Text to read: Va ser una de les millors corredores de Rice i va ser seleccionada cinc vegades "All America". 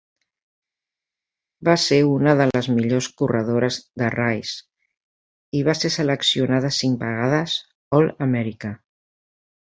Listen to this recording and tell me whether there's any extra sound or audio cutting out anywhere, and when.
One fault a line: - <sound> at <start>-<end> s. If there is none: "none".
none